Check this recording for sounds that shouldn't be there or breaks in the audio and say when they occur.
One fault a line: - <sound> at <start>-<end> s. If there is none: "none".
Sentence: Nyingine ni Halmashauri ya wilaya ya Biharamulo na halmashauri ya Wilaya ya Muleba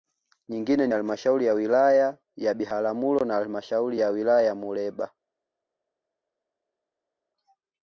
none